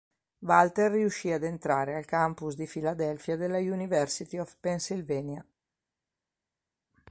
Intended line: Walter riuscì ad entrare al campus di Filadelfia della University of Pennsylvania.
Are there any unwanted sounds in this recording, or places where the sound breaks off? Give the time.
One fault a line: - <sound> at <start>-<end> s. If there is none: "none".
none